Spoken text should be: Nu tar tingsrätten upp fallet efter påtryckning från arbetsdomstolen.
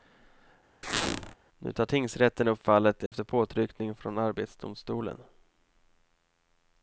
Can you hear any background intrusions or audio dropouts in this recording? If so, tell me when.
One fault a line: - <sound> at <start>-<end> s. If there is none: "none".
- squeak at 0.8-1.3 s
- dropout at 3.1-3.1 s